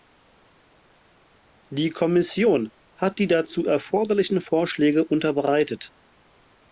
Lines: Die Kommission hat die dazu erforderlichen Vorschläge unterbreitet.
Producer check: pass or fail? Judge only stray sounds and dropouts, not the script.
pass